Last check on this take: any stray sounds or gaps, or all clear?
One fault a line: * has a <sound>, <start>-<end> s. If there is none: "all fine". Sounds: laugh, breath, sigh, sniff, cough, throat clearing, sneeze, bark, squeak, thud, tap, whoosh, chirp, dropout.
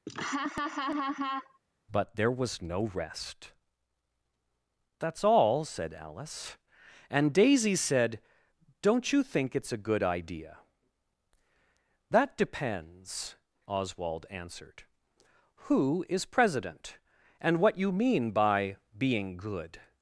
* has a laugh, 0.1-1.6 s